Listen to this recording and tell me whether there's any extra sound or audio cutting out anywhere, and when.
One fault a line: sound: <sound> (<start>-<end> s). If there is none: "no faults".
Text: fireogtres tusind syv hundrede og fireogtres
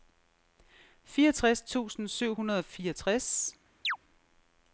sound: chirp (3.8-4.0 s)